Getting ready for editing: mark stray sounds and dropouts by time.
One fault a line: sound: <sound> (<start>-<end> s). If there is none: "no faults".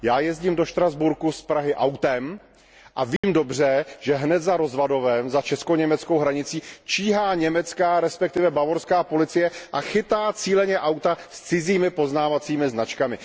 sound: dropout (3.2-3.2 s)